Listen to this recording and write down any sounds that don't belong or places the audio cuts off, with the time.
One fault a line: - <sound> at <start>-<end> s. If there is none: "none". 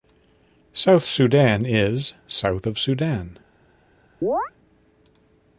- chirp at 4.2-4.5 s